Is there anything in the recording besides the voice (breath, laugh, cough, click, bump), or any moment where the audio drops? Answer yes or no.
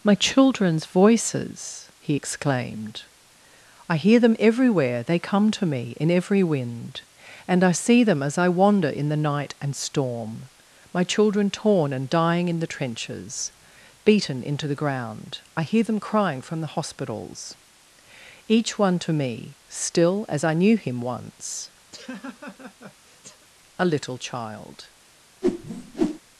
yes